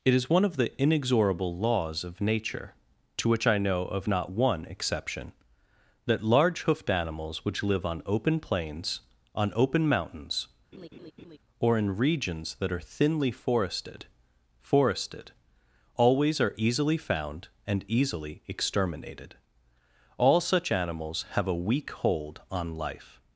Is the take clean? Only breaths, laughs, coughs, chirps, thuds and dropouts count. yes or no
no